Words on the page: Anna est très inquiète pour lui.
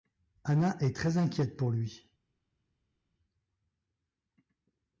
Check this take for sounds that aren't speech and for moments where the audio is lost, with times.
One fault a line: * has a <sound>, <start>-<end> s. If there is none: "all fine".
all fine